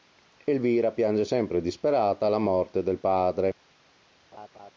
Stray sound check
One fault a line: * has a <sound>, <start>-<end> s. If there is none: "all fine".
* has a laugh, 4.3-4.7 s